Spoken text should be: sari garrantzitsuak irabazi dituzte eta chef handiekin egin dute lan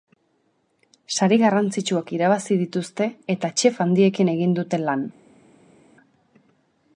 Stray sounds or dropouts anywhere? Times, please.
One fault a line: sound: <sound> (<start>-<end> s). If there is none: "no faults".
no faults